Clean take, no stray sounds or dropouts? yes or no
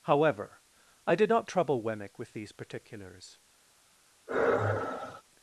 no